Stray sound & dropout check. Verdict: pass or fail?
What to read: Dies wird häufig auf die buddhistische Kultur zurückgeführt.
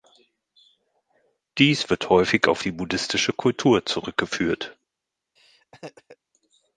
fail